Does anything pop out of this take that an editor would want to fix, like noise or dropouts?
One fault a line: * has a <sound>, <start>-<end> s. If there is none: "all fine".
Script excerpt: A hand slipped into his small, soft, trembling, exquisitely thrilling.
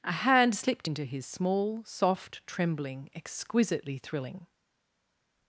all fine